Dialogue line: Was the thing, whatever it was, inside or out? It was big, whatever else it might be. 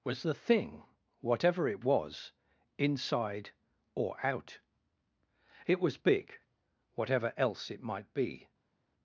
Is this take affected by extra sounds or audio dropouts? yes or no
no